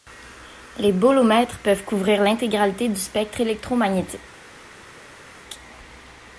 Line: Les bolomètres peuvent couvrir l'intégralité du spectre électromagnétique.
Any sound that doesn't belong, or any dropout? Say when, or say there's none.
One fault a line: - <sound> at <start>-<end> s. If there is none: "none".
none